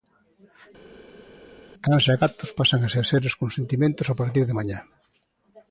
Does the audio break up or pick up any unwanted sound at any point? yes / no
no